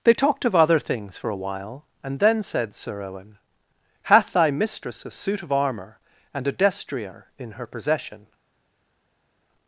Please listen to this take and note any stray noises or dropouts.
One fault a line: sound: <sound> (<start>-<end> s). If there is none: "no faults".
no faults